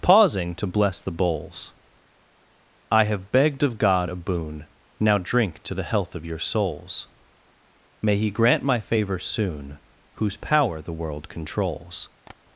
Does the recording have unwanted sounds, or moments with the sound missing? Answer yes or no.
yes